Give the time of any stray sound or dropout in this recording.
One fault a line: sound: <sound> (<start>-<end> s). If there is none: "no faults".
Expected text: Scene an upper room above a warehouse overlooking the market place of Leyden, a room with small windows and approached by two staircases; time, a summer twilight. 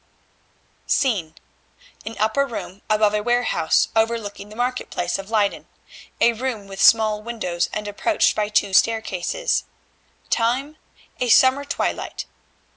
no faults